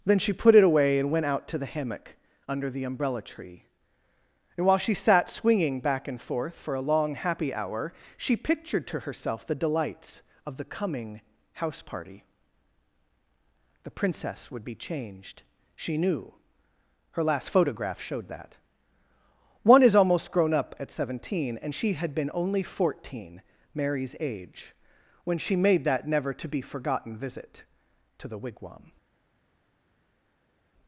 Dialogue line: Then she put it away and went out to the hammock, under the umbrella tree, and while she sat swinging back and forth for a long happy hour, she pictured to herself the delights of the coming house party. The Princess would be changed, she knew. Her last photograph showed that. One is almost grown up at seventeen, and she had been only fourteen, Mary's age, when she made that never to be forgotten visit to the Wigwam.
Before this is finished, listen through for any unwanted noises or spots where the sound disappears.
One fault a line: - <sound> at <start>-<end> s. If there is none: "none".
none